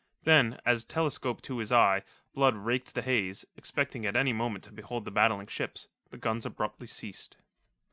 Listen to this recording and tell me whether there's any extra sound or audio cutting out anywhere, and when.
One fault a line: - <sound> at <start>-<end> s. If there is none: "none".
none